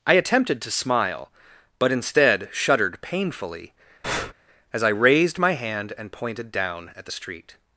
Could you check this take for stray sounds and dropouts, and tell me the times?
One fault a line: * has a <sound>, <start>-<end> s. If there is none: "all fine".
* has a breath, 4.0-4.3 s